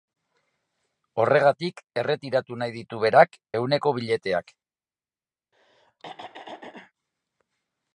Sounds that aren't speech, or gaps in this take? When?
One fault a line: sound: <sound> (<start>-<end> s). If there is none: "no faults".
sound: throat clearing (5.5-6.9 s)